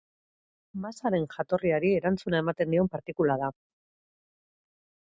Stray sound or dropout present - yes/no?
no